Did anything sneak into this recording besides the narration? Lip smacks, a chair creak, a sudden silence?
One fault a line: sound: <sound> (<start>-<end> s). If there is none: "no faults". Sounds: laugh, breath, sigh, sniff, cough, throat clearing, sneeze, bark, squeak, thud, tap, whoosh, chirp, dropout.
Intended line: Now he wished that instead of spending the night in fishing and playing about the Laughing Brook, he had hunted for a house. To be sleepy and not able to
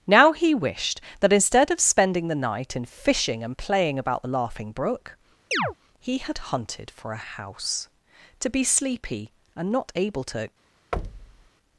sound: chirp (5.5-5.7 s)
sound: thud (10.9-11.5 s)